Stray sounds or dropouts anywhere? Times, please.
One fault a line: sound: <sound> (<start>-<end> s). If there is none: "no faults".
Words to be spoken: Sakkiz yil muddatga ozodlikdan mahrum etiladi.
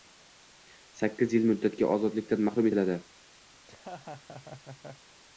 sound: laugh (3.5-5.1 s)